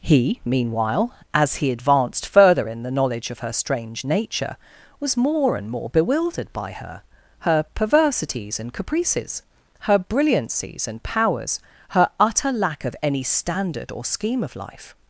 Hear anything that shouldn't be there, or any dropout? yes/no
no